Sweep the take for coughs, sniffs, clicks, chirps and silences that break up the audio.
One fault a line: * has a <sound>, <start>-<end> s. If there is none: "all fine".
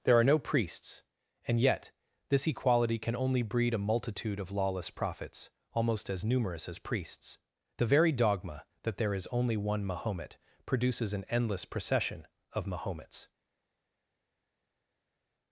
all fine